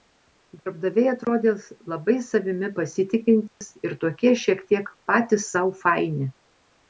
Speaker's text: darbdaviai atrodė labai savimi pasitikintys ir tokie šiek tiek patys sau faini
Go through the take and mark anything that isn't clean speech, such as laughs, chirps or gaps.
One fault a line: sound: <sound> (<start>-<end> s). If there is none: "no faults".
sound: dropout (3.5-3.6 s)